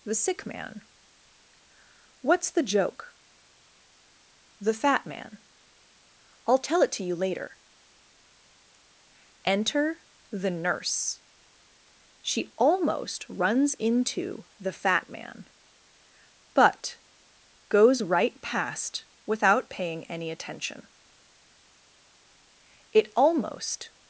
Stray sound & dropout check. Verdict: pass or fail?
pass